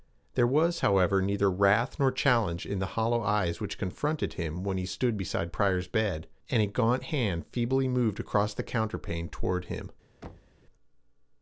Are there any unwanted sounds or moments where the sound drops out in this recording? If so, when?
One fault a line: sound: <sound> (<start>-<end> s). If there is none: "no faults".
sound: thud (10.2-10.6 s)